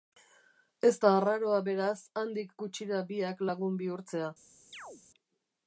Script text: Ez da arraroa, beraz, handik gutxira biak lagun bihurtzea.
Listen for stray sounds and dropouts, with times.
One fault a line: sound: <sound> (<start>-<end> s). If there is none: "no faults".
sound: chirp (4.7-5.0 s)